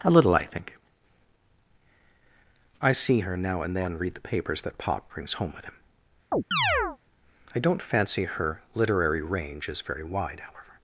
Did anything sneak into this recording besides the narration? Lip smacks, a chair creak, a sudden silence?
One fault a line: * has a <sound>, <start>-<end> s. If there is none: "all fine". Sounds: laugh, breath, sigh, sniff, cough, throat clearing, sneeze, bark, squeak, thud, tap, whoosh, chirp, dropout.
* has a chirp, 6.3-7.0 s